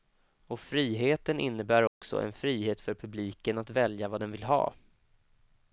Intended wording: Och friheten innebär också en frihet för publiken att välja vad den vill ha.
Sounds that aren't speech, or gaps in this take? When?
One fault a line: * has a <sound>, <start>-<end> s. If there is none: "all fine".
* has a dropout, 1.9-2.0 s